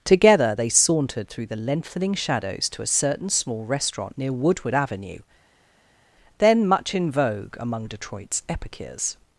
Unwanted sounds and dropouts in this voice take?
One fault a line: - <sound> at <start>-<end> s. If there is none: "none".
none